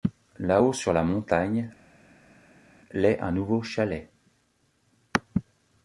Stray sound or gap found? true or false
false